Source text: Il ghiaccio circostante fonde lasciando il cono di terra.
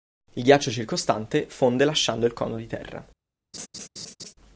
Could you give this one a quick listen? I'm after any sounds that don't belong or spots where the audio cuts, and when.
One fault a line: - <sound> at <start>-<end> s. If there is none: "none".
- laugh at 3.5-4.3 s